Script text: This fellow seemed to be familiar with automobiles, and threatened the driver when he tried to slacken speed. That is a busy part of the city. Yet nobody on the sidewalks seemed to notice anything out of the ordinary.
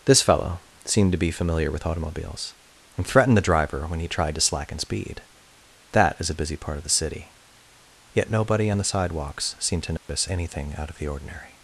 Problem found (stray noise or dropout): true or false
true